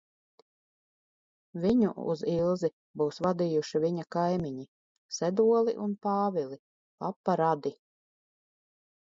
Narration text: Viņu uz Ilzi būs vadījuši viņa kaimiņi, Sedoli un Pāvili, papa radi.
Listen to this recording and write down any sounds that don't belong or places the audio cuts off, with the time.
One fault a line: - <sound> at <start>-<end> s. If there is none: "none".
none